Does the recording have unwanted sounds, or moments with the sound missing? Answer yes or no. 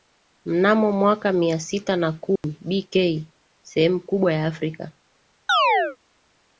yes